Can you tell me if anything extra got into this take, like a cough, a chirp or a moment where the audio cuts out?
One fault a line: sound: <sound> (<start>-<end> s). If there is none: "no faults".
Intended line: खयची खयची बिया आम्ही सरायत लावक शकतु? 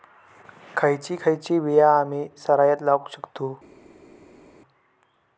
no faults